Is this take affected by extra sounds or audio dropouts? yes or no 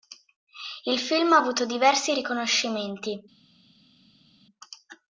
no